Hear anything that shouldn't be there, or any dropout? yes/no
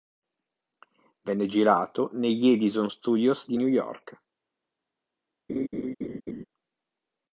yes